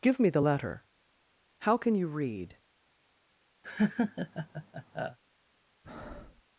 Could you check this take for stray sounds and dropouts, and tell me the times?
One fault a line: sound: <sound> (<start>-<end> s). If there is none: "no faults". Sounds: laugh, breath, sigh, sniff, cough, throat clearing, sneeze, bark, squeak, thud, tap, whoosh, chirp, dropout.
sound: laugh (3.6-5.2 s)
sound: breath (5.8-6.4 s)